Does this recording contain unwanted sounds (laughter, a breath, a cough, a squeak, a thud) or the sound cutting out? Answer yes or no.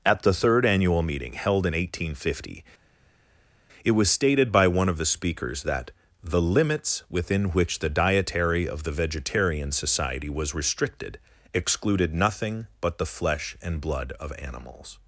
no